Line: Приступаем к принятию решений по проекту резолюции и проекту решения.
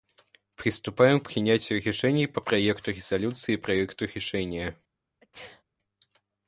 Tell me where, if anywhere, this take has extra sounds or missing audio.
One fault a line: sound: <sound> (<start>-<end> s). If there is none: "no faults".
sound: sneeze (5.2-5.6 s)